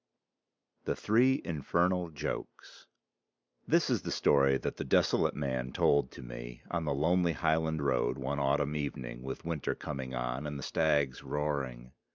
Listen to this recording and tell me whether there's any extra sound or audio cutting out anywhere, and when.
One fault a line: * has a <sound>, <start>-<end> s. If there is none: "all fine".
all fine